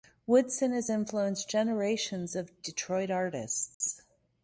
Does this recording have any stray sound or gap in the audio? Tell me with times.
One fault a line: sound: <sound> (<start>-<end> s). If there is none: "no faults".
sound: dropout (3.7-3.8 s)